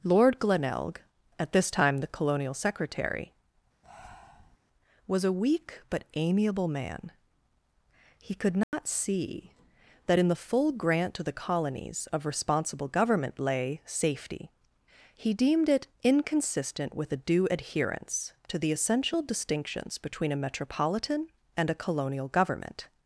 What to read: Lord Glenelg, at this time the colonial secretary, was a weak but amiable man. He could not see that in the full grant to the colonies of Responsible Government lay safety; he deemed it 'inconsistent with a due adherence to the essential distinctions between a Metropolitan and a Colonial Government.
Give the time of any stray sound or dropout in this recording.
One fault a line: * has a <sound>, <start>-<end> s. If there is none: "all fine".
* has a breath, 3.8-4.6 s
* has a dropout, 8.6-8.7 s